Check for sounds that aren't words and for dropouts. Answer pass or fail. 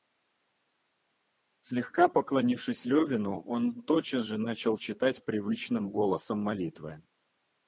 pass